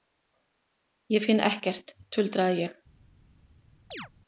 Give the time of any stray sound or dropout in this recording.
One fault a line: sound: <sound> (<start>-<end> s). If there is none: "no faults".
sound: chirp (3.9-4.1 s)